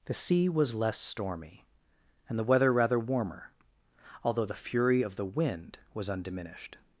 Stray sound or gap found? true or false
false